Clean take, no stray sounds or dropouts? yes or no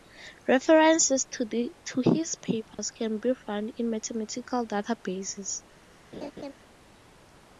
no